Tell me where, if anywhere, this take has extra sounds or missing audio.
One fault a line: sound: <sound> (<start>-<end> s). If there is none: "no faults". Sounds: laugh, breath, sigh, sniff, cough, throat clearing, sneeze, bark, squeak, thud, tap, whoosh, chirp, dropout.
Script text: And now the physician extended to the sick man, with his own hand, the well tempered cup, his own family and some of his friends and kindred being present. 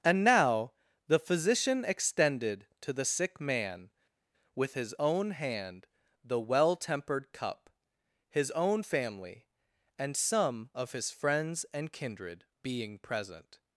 no faults